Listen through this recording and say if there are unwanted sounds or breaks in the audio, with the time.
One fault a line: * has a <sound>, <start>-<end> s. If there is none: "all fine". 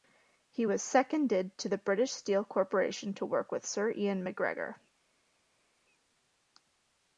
all fine